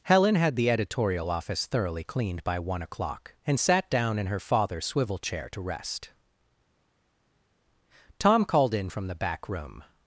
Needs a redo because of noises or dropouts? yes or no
no